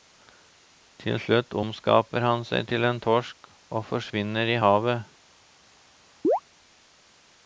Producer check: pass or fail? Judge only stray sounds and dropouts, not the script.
fail